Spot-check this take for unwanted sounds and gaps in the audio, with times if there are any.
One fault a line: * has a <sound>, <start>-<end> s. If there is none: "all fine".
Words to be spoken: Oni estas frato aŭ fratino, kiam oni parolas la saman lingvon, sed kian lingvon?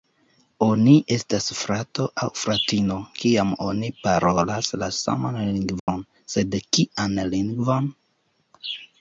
* has a dropout, 5.8-5.9 s